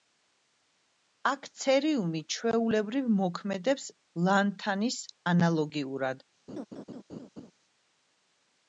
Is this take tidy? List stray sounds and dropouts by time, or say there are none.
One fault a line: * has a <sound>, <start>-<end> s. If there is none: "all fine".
* has a laugh, 6.5-7.5 s